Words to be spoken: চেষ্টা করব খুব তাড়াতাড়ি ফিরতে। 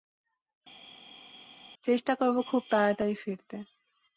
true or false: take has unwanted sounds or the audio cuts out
false